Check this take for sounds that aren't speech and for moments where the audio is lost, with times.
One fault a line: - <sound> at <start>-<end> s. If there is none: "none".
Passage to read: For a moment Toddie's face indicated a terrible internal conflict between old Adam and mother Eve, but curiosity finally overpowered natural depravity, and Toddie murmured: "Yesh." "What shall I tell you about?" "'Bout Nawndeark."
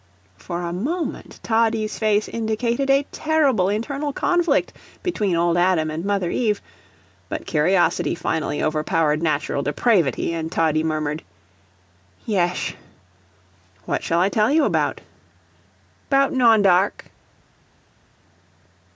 none